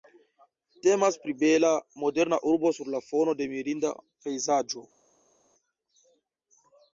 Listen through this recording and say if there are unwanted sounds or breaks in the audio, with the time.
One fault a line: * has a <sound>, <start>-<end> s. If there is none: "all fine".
all fine